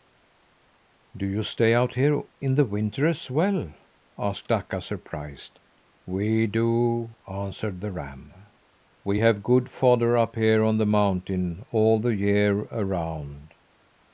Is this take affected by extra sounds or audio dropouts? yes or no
no